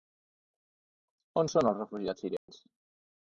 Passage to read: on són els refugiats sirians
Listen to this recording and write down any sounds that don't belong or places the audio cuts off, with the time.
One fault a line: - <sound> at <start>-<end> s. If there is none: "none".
- dropout at 2.4-2.5 s